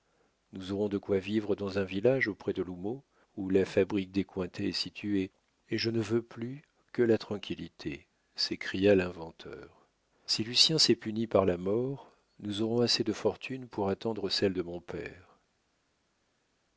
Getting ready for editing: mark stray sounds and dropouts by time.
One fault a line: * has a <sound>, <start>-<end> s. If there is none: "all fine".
all fine